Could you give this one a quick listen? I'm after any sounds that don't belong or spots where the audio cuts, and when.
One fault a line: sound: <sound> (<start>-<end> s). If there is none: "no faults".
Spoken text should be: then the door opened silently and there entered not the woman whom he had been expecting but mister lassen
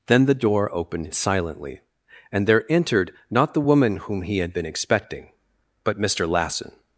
no faults